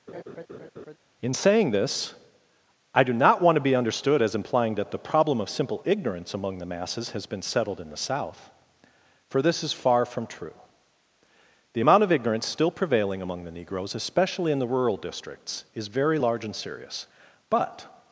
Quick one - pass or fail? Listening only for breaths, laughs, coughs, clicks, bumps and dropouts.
fail